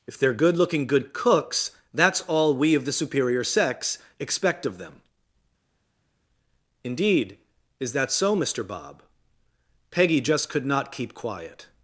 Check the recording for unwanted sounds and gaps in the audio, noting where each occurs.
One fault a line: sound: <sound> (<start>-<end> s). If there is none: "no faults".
no faults